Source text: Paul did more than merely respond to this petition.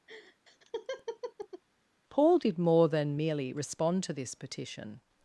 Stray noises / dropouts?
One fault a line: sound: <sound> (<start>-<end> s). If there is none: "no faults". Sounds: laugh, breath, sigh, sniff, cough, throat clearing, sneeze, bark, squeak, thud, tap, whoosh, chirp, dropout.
sound: laugh (0.1-1.6 s)